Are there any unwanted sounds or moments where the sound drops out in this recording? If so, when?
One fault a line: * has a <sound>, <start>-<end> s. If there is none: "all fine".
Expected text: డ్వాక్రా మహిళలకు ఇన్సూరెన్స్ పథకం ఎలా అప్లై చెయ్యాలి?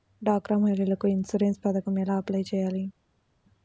all fine